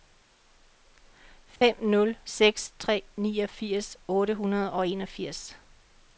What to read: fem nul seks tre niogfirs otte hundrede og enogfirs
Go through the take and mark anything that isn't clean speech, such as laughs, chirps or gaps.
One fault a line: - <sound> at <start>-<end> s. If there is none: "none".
- dropout at 1.6-1.6 s